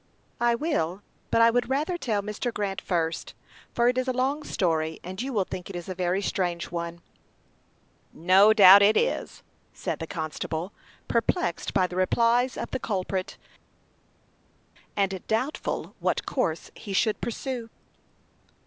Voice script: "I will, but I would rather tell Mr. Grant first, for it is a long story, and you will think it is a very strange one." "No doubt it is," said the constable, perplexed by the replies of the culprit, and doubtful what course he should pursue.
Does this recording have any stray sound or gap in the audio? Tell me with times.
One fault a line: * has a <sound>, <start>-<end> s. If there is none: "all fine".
all fine